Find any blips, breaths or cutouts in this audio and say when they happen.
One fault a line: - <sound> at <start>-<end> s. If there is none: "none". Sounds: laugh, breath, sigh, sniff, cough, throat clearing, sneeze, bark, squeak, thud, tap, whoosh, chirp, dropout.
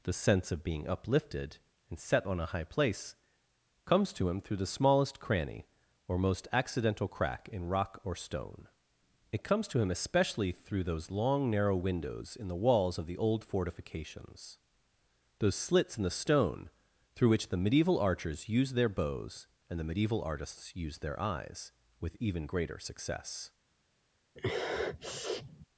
- sniff at 24.4-25.7 s